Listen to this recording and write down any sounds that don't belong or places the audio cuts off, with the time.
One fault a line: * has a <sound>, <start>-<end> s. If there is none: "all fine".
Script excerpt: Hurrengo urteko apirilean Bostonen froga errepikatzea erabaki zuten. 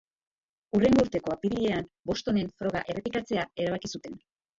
all fine